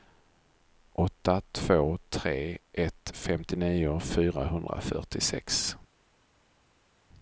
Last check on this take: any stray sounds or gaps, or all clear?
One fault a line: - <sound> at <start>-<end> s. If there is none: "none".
none